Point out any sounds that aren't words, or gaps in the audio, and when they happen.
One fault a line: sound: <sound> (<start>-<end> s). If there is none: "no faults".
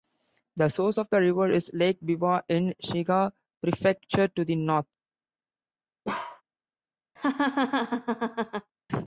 sound: bark (6.0-6.4 s)
sound: laugh (7.2-8.7 s)